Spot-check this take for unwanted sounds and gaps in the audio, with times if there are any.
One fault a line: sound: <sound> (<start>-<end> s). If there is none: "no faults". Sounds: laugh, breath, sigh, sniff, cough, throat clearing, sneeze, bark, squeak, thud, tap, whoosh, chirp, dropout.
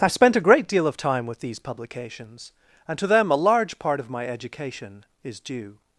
no faults